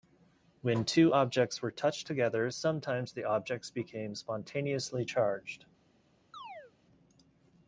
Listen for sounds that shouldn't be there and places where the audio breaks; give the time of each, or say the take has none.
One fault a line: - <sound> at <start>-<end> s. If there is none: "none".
- chirp at 6.3-6.7 s